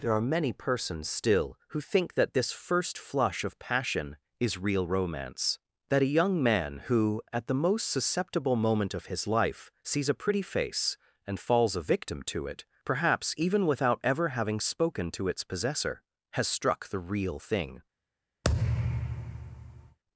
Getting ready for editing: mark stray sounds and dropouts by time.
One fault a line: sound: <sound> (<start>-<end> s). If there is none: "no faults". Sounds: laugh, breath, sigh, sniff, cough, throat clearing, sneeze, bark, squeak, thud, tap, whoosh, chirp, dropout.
sound: thud (18.4-20.0 s)